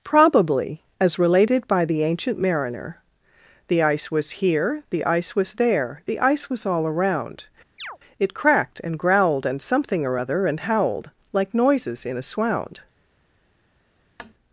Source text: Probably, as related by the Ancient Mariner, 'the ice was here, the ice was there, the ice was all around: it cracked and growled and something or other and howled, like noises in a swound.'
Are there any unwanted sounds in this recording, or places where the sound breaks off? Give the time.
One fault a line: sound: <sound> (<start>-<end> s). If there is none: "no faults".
sound: chirp (7.8-8.0 s)
sound: tap (14.2-14.3 s)